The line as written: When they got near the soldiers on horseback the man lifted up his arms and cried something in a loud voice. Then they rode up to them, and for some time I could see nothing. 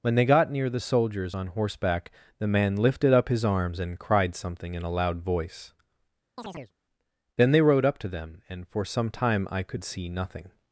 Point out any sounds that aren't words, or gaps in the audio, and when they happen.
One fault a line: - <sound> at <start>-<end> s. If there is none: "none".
- chirp at 6.4-6.7 s